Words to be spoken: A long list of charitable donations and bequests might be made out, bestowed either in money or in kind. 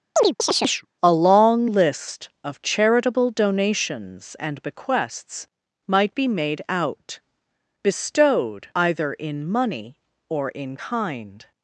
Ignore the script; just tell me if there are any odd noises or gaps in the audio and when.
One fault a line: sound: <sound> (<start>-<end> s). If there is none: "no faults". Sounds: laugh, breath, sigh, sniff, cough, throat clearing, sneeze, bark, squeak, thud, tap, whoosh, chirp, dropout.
sound: chirp (0.2-0.9 s)